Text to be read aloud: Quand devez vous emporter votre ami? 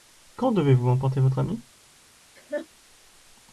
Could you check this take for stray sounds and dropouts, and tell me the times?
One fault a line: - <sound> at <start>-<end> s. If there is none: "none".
- laugh at 2.3-2.7 s